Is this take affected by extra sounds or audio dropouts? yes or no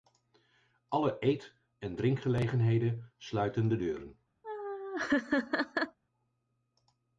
yes